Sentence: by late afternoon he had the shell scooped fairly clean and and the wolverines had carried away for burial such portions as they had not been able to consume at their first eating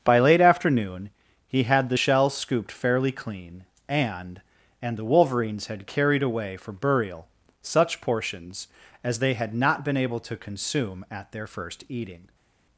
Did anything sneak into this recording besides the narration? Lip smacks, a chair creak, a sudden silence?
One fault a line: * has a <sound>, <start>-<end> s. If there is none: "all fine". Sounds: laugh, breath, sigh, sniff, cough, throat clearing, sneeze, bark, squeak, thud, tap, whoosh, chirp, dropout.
all fine